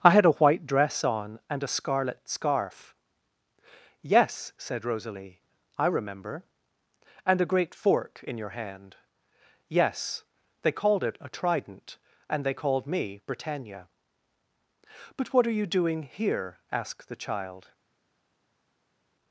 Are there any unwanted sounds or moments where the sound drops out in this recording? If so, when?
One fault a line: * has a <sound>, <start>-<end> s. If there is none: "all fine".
all fine